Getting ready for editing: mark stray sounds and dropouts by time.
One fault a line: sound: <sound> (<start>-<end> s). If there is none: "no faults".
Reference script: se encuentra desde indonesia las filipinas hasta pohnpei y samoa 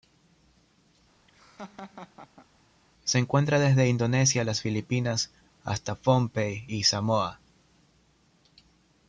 sound: laugh (1.3-2.5 s)